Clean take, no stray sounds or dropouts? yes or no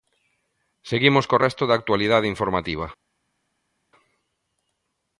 yes